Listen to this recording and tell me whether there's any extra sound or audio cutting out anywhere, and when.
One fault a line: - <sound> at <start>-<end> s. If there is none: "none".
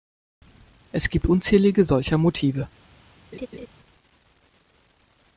- laugh at 3.3-3.7 s